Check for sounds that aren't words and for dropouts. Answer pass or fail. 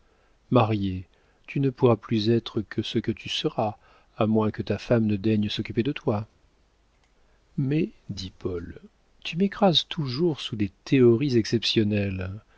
pass